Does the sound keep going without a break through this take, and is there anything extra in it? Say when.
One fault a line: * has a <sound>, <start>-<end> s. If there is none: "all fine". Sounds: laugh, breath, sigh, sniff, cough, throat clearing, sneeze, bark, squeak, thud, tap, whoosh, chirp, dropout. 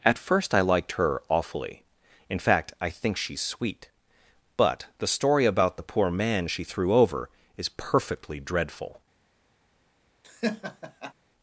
* has a laugh, 10.2-11.1 s